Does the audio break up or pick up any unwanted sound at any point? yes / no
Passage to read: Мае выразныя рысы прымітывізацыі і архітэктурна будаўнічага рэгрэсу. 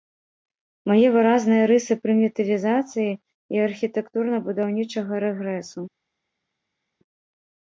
no